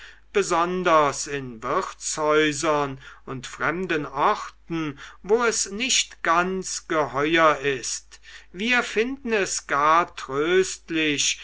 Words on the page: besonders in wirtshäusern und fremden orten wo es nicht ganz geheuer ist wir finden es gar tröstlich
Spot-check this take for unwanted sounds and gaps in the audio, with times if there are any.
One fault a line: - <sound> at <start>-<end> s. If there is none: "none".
none